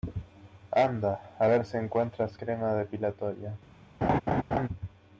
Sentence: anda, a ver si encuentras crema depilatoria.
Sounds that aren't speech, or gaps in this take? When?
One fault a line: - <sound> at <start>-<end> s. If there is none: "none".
- laugh at 4.0-4.7 s